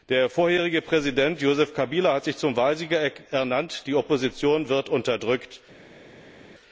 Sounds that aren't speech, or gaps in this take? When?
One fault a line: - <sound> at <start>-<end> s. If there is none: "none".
none